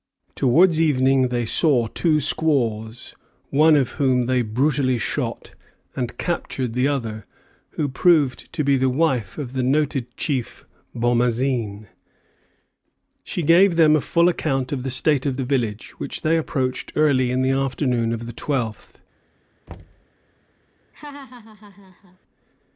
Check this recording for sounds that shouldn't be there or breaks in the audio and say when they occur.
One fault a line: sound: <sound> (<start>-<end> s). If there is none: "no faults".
sound: thud (19.7-20.1 s)
sound: laugh (20.9-22.2 s)